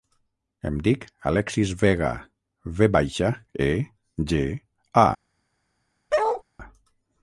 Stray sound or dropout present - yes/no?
yes